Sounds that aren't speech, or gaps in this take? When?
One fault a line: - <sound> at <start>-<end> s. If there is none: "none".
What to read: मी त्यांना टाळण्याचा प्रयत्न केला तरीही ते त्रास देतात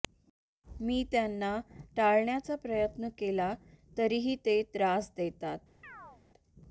- chirp at 5.8-6.2 s